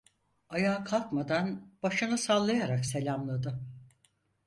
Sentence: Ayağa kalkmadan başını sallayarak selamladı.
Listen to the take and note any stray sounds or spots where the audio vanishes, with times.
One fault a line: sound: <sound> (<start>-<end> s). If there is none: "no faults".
no faults